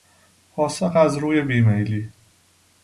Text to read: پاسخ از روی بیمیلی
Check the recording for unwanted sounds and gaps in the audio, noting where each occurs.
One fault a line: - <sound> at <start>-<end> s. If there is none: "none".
none